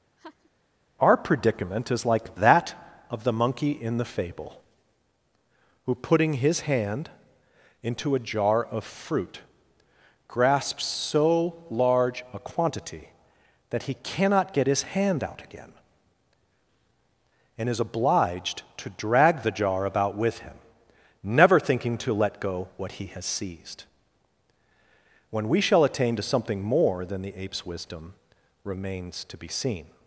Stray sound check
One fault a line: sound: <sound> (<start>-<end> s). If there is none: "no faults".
sound: laugh (0.2-0.5 s)